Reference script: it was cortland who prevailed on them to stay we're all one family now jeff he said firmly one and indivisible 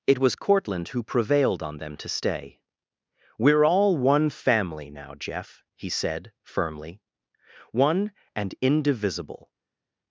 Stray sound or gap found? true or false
false